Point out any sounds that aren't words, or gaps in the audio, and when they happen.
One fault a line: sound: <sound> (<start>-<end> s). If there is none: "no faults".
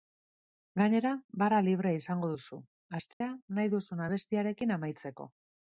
sound: dropout (3.1-3.2 s)